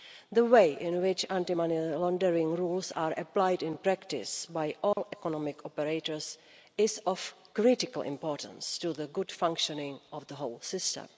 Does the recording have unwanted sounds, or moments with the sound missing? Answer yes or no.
yes